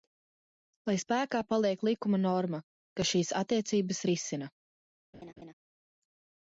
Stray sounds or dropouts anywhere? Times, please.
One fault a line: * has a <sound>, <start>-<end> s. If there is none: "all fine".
* has a laugh, 5.1-5.5 s